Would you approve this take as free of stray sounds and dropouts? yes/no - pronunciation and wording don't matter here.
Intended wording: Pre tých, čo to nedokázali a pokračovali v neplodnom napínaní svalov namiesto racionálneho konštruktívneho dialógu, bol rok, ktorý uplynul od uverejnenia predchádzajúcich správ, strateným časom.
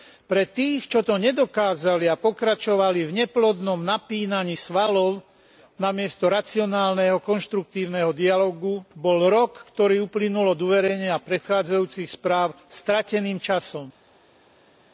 yes